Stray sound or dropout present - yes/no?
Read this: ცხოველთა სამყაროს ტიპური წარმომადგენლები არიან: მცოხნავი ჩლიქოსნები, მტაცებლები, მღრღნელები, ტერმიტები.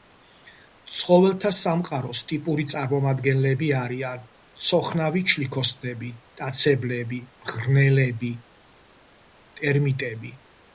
no